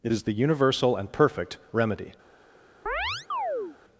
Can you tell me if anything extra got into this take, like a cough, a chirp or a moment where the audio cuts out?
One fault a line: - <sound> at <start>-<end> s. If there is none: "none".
- chirp at 2.9-3.8 s